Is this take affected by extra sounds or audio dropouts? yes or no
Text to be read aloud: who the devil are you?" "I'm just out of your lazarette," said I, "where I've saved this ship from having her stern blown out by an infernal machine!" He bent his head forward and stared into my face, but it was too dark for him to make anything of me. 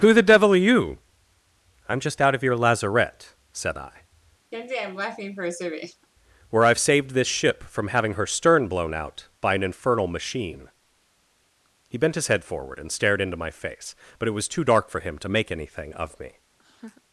yes